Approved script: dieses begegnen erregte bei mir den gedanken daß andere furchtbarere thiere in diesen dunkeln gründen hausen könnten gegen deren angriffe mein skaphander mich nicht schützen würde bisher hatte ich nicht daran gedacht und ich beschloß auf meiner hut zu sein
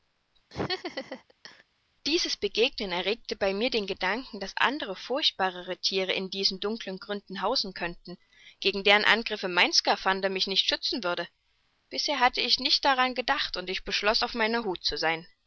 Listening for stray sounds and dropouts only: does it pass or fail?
fail